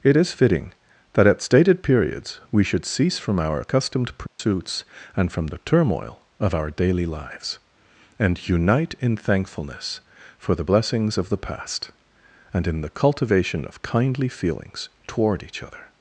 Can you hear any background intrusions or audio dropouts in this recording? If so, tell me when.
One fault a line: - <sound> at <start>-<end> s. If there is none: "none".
- dropout at 4.3-4.4 s